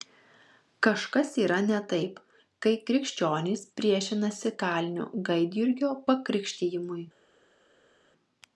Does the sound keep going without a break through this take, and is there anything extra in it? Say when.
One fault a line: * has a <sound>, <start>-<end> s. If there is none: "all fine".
all fine